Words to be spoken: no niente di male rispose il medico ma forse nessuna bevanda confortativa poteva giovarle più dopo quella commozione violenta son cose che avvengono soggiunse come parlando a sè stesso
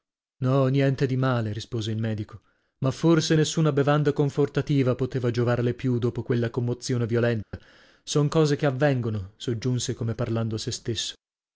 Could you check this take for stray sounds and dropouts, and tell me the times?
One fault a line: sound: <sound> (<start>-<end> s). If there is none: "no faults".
sound: dropout (7.4-7.5 s)